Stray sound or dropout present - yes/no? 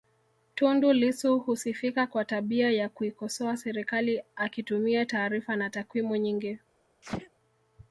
yes